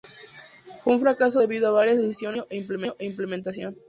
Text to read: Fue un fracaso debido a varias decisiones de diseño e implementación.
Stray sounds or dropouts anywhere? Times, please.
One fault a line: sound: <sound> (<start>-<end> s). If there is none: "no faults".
no faults